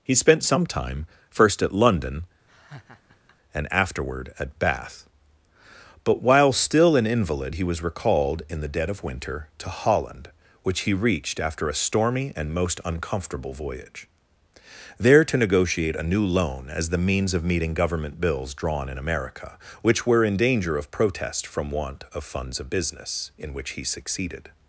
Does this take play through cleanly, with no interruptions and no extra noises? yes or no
no